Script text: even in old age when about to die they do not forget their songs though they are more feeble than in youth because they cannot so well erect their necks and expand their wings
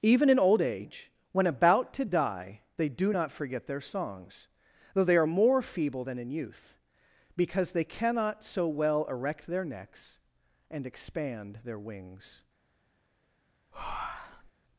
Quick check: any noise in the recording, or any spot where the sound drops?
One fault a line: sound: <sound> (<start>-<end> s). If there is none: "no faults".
sound: breath (13.7-14.5 s)